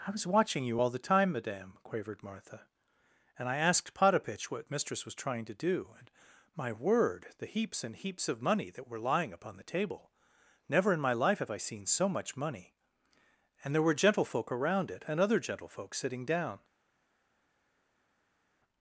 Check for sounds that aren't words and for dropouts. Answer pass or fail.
pass